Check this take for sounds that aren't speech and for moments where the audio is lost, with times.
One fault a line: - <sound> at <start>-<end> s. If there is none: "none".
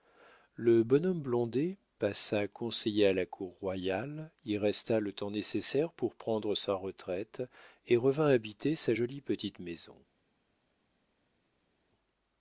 none